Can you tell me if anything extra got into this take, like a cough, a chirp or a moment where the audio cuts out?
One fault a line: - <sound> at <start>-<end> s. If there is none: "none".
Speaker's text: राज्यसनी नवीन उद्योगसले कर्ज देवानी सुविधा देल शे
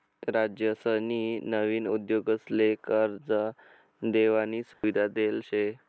- dropout at 4.7-4.8 s